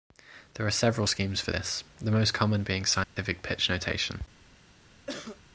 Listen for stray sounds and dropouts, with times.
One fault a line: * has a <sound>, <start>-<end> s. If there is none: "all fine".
* has a dropout, 3.0-3.2 s
* has a cough, 5.1-5.4 s